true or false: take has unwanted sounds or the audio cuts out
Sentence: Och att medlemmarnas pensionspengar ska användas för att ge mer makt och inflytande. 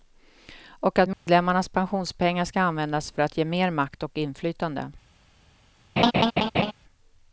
true